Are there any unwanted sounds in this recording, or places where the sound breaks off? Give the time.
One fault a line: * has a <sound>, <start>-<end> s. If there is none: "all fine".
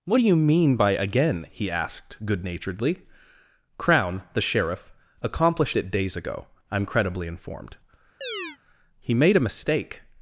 * has a chirp, 8.2-8.6 s